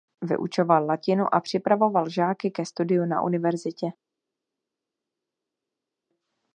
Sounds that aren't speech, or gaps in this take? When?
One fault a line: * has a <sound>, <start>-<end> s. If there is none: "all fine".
all fine